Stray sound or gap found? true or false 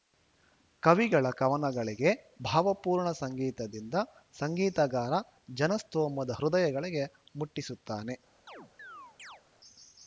true